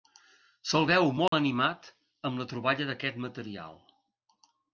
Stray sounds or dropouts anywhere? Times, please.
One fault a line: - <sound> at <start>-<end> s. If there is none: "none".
- dropout at 1.3-1.3 s